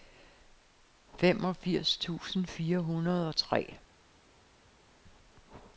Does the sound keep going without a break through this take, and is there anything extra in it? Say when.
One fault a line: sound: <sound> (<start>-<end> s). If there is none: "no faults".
no faults